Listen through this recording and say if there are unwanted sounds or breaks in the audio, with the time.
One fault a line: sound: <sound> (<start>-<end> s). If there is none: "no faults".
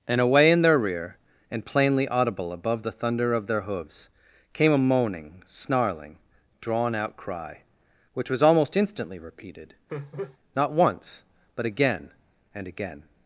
sound: laugh (9.9-10.4 s)